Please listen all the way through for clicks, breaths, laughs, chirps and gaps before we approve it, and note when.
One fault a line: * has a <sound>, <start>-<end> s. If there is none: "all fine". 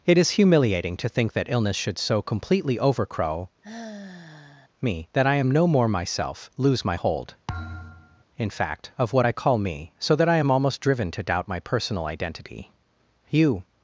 * has a sigh, 3.6-4.7 s
* has a thud, 7.5-8.2 s